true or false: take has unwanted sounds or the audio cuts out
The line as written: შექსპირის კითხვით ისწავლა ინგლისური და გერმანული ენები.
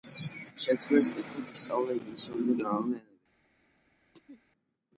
true